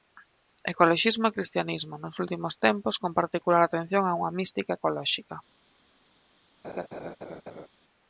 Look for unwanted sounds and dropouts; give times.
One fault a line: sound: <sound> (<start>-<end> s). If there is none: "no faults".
sound: laugh (6.6-7.7 s)